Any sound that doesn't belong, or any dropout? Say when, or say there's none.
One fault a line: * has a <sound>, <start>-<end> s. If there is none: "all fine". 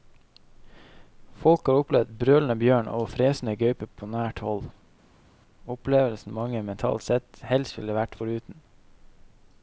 all fine